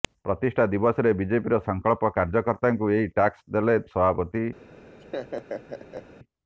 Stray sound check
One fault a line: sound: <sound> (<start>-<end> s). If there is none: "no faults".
sound: laugh (5.0-6.1 s)